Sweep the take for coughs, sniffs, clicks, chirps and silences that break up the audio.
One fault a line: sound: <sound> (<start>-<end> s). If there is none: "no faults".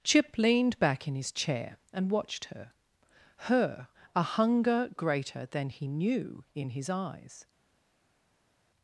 no faults